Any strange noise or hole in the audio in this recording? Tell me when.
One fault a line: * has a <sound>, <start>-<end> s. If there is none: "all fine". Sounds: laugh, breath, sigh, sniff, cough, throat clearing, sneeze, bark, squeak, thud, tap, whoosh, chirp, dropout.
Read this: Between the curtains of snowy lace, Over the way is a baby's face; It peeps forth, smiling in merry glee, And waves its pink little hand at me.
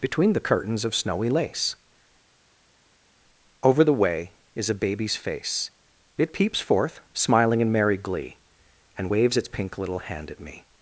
all fine